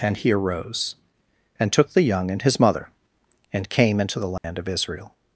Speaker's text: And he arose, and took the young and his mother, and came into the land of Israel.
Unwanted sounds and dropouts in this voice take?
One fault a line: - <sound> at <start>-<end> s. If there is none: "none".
- dropout at 4.4-4.4 s